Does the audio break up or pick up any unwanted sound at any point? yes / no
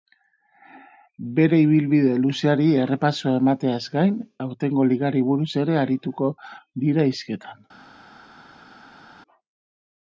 no